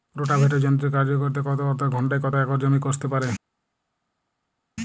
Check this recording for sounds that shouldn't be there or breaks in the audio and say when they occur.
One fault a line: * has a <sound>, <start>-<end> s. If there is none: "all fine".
all fine